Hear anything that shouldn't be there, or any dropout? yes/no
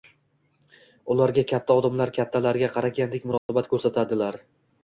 yes